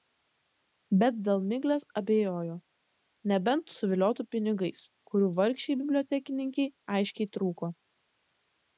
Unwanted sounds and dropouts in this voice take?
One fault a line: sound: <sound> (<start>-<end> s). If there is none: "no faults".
no faults